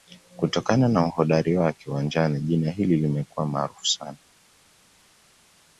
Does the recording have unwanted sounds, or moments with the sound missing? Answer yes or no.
no